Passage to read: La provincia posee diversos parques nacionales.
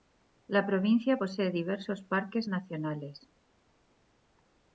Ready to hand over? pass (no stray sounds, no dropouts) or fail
pass